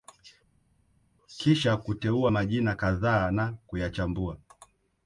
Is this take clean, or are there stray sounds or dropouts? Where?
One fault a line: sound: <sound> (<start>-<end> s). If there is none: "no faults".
no faults